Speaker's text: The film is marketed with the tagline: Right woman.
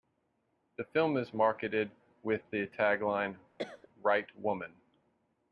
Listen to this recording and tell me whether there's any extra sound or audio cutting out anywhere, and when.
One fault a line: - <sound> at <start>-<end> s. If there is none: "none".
- cough at 3.6-3.9 s